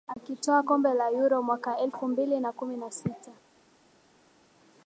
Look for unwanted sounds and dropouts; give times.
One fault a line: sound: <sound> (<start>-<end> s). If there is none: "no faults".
no faults